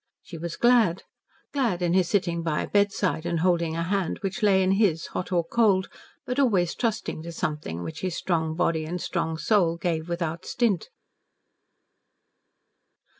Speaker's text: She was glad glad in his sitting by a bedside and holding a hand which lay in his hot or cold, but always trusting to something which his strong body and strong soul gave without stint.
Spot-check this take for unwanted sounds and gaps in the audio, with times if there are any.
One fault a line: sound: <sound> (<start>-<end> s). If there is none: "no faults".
no faults